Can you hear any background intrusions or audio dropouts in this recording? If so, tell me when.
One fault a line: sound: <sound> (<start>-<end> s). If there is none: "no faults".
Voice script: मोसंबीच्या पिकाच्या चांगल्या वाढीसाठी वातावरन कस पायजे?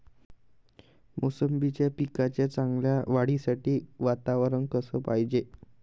no faults